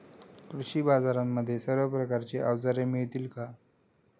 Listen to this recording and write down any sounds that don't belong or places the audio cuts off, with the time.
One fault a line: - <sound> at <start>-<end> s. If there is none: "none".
none